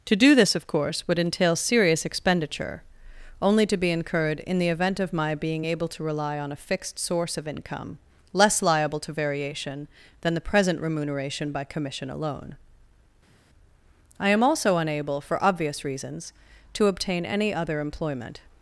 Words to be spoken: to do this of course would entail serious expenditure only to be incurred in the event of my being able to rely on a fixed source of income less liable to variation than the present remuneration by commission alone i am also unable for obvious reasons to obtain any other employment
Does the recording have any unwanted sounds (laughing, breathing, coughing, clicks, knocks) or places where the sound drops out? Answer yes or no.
no